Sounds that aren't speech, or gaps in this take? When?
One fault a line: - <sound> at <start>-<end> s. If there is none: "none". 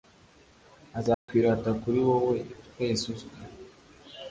- dropout at 1.1-1.3 s